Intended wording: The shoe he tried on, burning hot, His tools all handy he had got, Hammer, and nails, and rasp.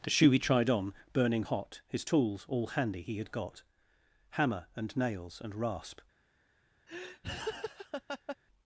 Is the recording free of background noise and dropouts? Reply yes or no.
no